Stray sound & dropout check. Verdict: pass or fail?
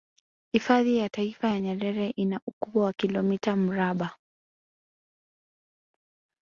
pass